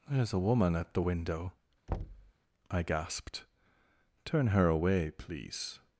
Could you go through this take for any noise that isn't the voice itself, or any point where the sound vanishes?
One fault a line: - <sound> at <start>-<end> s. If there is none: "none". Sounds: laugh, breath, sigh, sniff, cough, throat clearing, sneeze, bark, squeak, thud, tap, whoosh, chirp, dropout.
- thud at 1.9-2.3 s